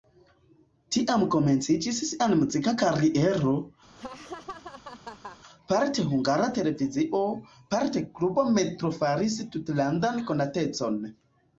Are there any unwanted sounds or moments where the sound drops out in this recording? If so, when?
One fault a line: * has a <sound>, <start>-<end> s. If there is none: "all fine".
* has a laugh, 4.0-5.4 s